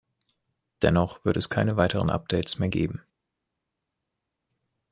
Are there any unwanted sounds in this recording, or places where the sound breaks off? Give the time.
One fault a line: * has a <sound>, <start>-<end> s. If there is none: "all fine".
all fine